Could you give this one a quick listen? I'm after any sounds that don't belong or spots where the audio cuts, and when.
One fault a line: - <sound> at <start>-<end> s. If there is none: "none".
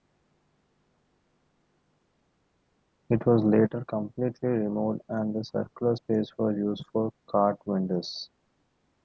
none